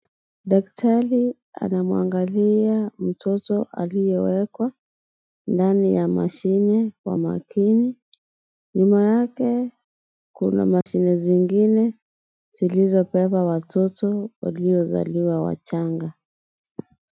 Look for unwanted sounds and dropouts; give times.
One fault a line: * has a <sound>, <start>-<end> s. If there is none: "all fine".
* has a dropout, 10.8-10.9 s